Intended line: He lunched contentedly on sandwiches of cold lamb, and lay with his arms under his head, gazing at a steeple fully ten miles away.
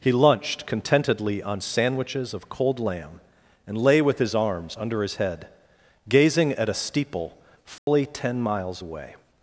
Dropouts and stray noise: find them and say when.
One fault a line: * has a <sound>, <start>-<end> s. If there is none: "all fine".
* has a dropout, 7.8-7.9 s